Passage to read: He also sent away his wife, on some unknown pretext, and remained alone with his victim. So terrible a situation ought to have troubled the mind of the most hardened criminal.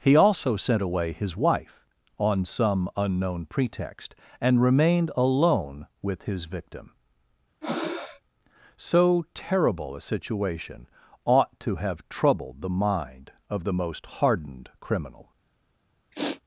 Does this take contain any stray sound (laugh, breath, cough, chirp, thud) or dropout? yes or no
yes